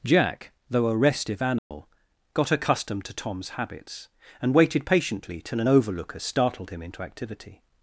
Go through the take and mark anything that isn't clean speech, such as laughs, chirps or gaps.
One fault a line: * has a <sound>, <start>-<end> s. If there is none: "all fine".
* has a dropout, 1.6-1.7 s